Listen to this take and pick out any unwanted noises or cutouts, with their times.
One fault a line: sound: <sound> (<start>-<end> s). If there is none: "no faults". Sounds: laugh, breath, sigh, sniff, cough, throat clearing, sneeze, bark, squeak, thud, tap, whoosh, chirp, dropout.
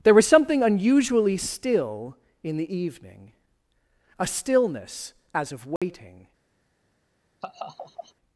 sound: dropout (5.8-5.8 s)
sound: laugh (7.4-8.1 s)